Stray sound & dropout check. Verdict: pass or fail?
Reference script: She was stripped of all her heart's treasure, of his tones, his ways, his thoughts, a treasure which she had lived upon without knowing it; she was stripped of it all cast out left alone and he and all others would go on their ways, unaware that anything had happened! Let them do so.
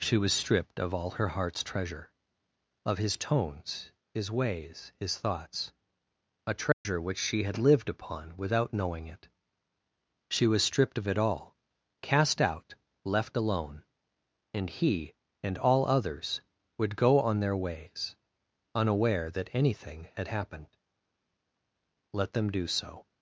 fail